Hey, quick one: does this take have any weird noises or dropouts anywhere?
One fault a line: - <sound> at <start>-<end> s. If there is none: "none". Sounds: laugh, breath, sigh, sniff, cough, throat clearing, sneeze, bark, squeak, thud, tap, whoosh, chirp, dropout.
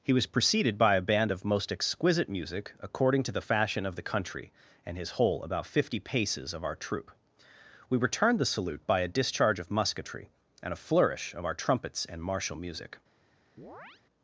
- chirp at 13.6-14.0 s